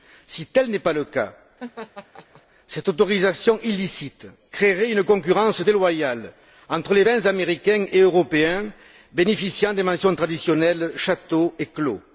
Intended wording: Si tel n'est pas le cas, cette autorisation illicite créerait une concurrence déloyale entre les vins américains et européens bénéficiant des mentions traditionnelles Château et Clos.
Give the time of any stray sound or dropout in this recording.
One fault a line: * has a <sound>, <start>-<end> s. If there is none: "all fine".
* has a laugh, 1.6-2.4 s